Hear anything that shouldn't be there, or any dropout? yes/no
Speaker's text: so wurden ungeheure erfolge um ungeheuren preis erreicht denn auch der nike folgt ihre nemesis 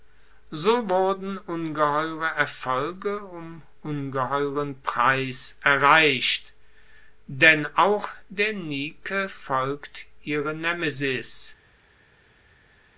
no